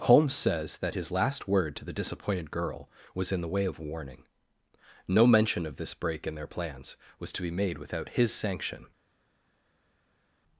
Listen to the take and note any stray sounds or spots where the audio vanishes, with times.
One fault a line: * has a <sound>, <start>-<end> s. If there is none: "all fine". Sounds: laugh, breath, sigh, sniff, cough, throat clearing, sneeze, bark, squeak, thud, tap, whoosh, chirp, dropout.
all fine